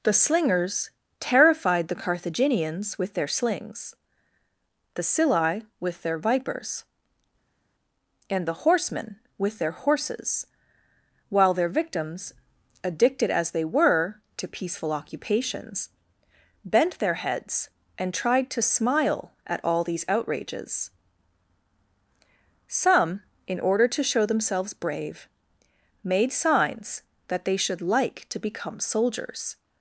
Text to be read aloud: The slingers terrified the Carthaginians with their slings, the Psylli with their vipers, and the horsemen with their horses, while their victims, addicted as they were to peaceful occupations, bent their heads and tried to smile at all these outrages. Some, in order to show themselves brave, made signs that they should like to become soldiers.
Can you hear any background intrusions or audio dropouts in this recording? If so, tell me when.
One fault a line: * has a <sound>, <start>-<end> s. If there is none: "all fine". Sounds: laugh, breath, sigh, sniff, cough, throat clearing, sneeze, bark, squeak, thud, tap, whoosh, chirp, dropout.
all fine